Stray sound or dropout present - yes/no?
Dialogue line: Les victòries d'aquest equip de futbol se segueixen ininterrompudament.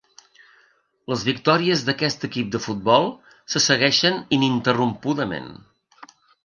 no